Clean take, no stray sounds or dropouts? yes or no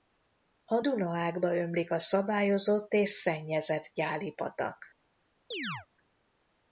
no